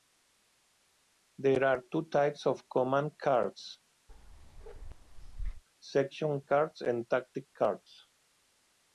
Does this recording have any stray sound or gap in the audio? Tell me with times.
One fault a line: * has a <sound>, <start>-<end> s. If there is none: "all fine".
* has a bark, 4.1-5.6 s